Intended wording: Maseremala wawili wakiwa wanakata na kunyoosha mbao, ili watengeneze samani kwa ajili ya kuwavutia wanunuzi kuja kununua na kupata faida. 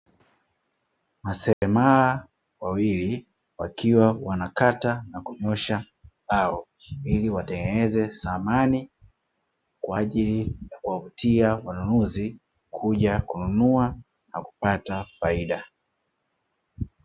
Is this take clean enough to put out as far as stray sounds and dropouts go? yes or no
no